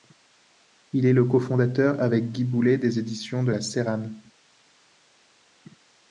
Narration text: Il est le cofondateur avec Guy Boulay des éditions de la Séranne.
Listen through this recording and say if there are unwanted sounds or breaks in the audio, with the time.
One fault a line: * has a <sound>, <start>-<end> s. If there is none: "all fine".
all fine